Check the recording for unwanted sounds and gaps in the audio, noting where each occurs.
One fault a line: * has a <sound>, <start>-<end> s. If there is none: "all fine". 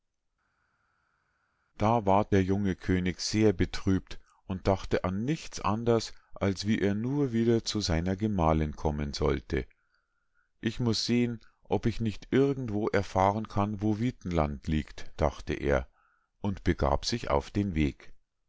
all fine